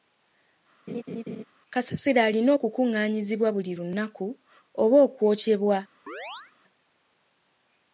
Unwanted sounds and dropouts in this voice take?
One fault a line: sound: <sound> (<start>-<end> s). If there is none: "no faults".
sound: laugh (0.9-1.4 s)
sound: chirp (6.1-6.5 s)